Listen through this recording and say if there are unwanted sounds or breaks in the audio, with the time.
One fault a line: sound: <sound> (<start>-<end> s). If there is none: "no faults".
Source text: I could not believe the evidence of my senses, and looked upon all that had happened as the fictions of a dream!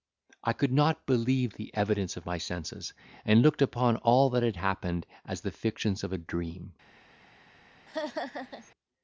sound: laugh (7.9-8.7 s)